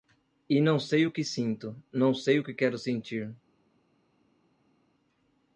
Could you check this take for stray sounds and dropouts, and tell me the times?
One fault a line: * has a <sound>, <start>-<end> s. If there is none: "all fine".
all fine